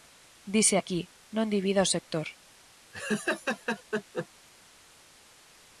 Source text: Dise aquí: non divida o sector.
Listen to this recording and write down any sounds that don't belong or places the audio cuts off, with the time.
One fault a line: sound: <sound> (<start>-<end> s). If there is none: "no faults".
sound: laugh (2.9-4.3 s)